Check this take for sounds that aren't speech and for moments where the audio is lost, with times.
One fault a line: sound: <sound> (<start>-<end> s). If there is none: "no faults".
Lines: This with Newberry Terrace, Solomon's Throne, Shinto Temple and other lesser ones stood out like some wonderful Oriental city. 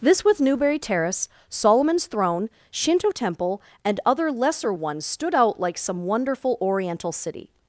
no faults